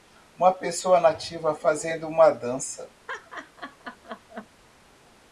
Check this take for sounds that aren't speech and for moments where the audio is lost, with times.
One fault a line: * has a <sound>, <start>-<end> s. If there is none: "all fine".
* has a laugh, 3.1-4.5 s